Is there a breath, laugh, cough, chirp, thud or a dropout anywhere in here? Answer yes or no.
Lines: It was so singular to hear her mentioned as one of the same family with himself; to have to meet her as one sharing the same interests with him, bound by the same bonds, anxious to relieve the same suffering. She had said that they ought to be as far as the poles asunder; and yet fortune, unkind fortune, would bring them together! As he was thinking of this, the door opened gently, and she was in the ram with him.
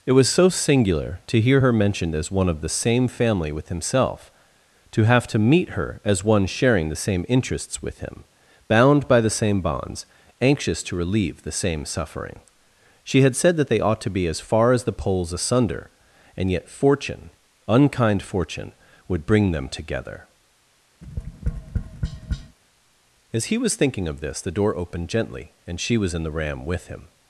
yes